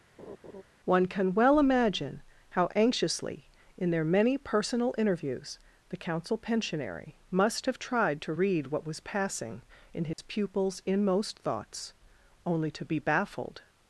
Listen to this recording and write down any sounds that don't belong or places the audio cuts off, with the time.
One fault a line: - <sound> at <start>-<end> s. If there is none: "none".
- laugh at 0.2-0.6 s
- dropout at 10.1-10.2 s